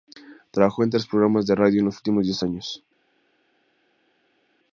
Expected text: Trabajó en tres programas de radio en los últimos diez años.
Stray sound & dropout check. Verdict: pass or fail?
pass